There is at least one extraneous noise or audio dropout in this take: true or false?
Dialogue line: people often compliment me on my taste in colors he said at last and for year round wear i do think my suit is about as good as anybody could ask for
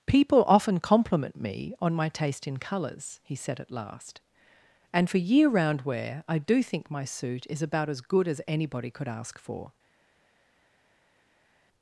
false